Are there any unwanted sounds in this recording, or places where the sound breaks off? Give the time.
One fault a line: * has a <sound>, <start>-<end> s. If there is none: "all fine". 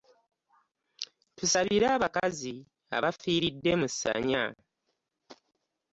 all fine